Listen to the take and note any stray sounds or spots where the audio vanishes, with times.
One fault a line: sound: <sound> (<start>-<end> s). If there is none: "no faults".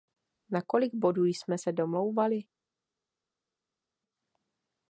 no faults